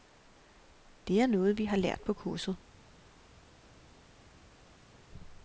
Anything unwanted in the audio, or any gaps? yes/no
no